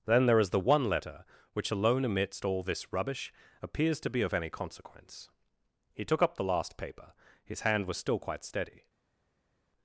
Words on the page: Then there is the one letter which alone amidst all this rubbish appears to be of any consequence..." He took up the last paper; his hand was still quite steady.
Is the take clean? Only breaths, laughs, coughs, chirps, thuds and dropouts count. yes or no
yes